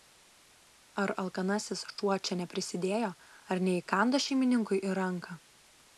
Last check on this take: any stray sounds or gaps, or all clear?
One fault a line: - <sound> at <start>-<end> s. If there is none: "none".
none